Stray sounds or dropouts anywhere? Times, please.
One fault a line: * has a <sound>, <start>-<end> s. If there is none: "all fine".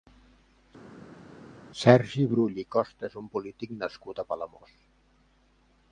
all fine